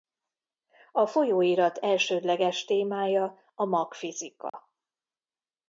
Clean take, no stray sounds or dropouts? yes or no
no